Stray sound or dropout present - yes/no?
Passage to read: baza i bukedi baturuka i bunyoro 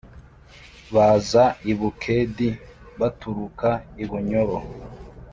no